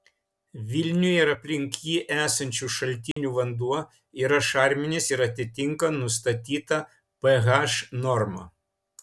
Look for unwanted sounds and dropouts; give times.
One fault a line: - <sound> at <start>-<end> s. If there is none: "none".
- dropout at 3.1-3.2 s